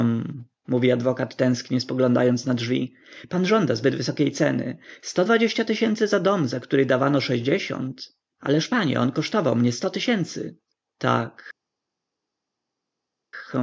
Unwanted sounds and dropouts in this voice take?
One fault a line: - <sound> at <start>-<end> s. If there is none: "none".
none